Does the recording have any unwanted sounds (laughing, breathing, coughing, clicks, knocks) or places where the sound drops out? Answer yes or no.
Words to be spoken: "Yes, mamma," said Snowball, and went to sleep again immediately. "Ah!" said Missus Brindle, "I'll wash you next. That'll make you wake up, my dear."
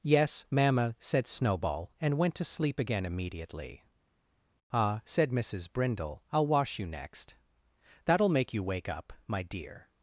no